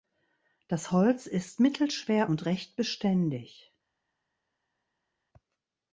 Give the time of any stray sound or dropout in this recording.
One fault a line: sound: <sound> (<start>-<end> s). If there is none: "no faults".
no faults